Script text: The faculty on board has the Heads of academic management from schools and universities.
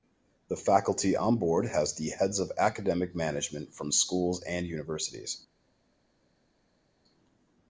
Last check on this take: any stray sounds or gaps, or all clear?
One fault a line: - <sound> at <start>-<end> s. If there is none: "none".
none